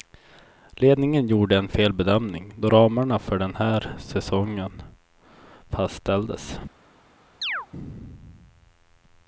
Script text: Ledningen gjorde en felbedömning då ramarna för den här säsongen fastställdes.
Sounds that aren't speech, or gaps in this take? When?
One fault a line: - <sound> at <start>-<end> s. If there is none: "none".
- chirp at 7.4-7.7 s